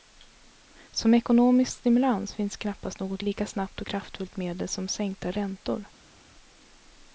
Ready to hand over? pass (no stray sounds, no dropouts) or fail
pass